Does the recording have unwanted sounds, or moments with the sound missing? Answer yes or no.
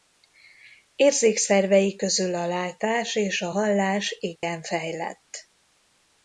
yes